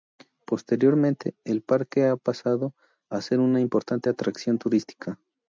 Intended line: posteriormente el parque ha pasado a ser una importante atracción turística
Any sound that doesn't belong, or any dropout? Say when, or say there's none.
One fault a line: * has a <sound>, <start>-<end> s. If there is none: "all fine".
all fine